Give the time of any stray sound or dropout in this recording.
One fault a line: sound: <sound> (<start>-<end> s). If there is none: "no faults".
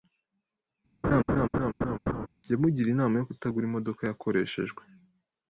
sound: laugh (1.0-2.3 s)